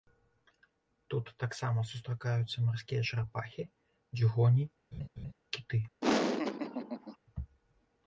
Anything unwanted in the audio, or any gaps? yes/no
yes